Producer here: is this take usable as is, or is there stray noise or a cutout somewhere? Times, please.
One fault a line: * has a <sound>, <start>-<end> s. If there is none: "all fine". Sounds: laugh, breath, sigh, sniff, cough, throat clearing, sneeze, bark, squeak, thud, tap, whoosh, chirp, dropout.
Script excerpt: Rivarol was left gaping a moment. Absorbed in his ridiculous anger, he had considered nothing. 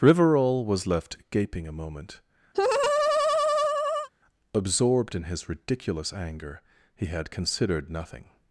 * has a laugh, 2.5-4.1 s